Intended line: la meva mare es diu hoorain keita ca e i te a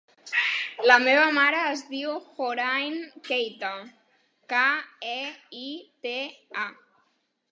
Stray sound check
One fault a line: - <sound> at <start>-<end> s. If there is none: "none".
none